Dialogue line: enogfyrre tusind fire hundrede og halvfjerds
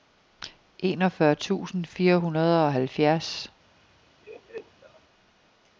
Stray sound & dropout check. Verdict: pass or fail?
fail